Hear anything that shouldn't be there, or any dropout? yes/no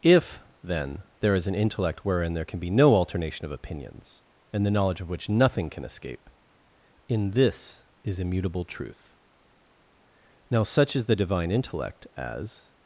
no